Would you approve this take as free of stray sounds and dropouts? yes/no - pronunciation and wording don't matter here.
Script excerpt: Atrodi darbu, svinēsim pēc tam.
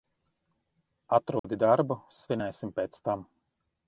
no